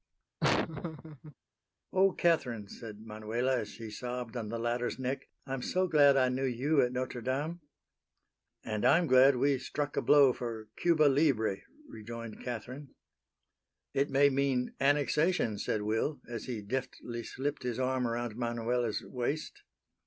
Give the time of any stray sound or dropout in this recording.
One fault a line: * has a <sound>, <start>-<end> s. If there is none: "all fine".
* has a laugh, 0.4-1.3 s